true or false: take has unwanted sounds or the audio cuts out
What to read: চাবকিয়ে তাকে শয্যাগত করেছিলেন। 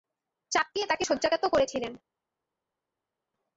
false